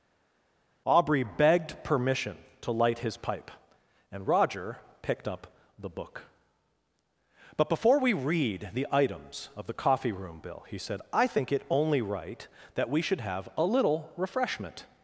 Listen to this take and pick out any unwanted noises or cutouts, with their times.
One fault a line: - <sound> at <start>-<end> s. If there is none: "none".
none